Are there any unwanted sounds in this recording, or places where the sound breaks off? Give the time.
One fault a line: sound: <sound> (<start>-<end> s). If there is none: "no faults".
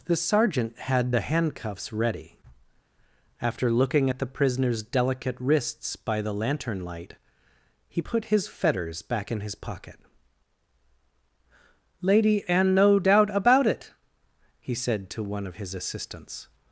no faults